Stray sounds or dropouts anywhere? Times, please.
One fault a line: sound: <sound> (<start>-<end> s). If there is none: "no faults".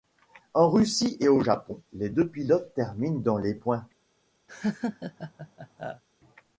sound: laugh (4.5-6.0 s)